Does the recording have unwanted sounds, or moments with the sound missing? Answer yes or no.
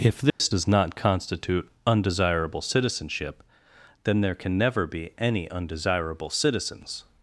yes